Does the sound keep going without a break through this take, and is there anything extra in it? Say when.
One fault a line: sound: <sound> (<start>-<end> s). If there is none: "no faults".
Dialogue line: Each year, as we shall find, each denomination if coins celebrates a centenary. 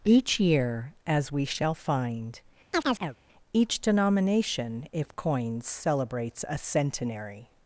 sound: chirp (2.7-3.2 s)